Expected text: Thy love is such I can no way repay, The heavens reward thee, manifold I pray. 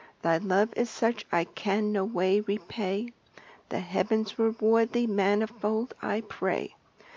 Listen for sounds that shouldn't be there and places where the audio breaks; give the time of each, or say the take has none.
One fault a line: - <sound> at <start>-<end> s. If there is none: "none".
none